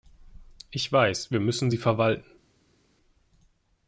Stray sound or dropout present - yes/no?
no